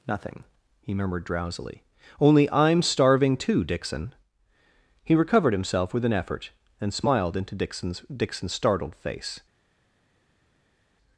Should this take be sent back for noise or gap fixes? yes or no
no